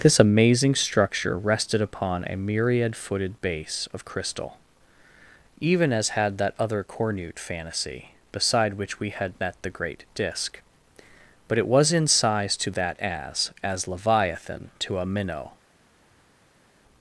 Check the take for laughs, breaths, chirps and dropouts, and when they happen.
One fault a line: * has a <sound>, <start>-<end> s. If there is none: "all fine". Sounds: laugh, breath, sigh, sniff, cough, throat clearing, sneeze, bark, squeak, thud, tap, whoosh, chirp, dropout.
all fine